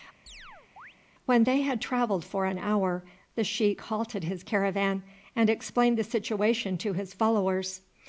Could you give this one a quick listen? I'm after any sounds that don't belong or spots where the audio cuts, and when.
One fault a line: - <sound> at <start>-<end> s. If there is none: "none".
- chirp at 0.3-0.9 s